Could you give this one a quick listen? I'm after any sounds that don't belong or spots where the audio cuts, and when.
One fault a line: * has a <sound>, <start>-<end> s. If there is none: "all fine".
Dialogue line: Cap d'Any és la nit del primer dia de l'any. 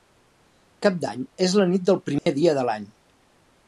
* has a dropout, 2.2-2.3 s